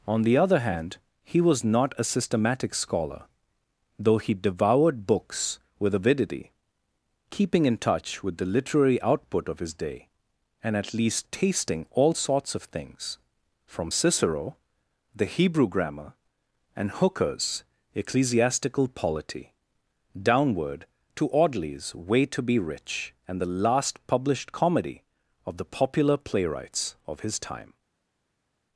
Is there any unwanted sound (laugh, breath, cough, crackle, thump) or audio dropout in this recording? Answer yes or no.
no